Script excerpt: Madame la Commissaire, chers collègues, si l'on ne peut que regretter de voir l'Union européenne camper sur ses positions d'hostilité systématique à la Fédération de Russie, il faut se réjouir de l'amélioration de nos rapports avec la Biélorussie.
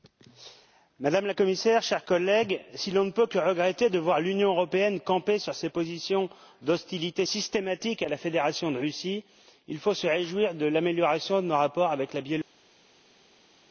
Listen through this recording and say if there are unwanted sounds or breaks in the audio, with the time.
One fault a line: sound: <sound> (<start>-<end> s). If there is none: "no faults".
no faults